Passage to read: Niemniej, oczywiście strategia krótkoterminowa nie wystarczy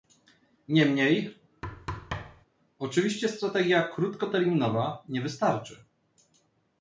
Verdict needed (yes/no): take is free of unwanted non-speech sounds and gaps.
no